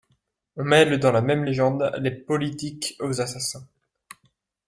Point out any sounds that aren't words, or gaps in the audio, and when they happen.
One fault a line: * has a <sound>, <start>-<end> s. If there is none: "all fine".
all fine